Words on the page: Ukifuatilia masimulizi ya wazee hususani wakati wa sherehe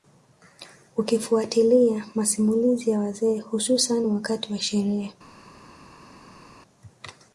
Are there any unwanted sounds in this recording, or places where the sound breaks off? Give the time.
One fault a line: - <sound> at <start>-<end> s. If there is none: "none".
none